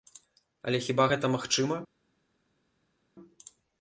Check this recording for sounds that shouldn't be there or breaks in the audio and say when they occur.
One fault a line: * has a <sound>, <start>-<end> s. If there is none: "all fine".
all fine